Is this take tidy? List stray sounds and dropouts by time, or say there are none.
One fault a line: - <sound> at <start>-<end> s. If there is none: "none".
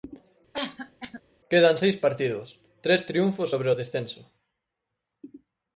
- cough at 0.5-1.2 s